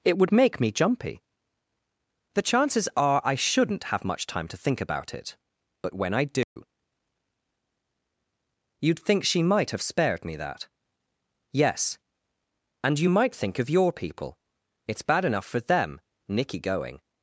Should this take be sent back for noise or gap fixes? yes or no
yes